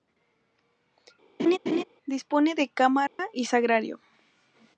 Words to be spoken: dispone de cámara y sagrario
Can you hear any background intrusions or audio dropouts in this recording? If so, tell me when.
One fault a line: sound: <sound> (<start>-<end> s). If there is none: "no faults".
sound: laugh (1.4-1.8 s)
sound: dropout (3.1-3.2 s)